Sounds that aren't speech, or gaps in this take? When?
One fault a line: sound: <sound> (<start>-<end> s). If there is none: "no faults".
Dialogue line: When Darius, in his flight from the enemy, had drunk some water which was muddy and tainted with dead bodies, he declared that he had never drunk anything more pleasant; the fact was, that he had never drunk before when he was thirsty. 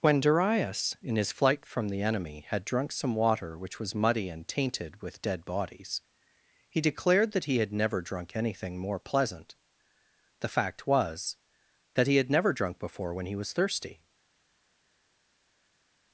no faults